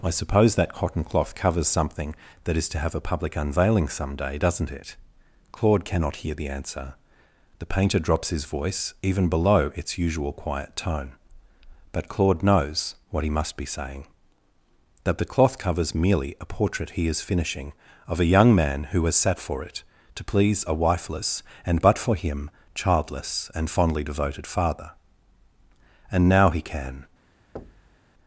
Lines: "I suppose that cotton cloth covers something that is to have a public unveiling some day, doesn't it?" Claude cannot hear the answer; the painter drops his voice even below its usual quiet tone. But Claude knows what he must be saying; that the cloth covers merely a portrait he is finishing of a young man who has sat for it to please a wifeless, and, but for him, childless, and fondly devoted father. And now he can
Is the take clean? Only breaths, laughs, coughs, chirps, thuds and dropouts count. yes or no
no